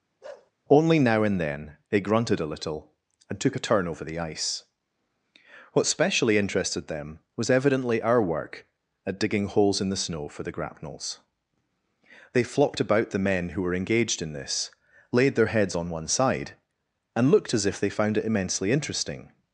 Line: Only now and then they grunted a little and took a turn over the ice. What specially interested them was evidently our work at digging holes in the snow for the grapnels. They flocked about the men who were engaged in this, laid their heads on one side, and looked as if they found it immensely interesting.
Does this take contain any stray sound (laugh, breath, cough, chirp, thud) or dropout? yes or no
yes